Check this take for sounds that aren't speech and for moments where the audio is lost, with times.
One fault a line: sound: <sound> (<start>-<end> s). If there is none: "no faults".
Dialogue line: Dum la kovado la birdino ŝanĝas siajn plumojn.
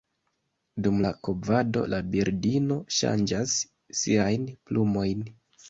no faults